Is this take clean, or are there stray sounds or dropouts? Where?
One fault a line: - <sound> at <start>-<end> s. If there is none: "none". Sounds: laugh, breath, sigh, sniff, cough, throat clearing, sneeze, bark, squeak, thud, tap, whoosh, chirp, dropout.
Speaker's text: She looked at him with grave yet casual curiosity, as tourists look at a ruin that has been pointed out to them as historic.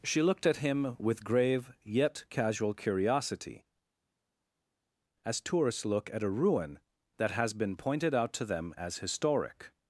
none